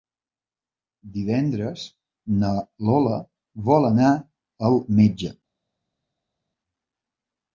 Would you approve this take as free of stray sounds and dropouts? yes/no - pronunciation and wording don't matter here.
yes